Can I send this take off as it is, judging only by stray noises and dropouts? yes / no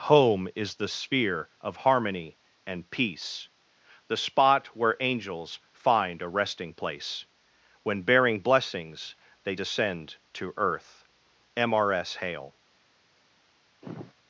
no